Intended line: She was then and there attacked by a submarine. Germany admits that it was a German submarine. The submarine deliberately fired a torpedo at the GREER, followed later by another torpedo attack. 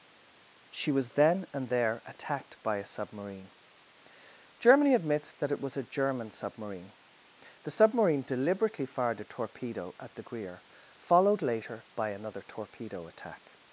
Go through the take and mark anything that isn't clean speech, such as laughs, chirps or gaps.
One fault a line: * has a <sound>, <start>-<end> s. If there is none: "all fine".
all fine